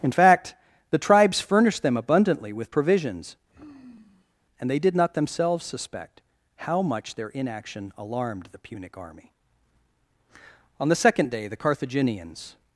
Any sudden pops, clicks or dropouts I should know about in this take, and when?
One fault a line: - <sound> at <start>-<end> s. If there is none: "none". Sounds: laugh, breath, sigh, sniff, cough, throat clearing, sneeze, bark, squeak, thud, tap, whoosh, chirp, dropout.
- sigh at 3.5-4.3 s